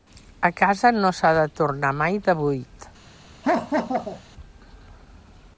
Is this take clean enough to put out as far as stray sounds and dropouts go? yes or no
no